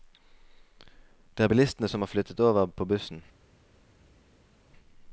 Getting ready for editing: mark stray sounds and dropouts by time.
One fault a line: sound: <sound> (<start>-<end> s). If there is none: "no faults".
no faults